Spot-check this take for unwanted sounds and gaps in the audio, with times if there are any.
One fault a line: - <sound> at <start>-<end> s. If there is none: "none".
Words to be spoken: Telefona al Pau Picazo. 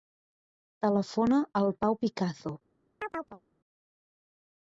- chirp at 3.0-3.4 s